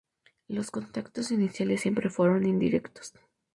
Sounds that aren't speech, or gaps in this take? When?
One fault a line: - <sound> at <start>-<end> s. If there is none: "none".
none